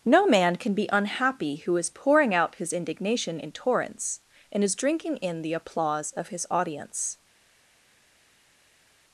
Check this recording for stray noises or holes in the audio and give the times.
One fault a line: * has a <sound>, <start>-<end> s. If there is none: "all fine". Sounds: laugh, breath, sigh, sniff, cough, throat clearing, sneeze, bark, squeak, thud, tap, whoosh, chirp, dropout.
all fine